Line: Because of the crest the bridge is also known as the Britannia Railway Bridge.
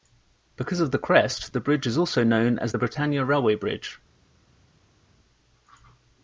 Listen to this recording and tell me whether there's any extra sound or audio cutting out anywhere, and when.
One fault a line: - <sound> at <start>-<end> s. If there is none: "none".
none